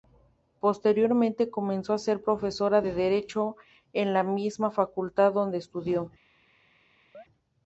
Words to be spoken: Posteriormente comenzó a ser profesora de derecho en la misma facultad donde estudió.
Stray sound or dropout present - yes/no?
yes